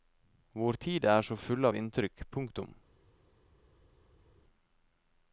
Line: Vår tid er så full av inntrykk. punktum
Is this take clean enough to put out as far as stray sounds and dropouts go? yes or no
yes